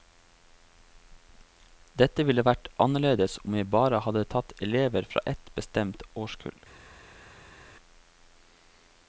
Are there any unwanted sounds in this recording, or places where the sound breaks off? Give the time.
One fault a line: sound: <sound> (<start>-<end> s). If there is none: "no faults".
no faults